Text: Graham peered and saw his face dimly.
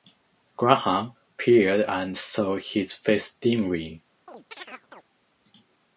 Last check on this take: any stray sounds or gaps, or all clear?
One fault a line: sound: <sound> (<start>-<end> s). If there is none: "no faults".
sound: chirp (4.3-5.0 s)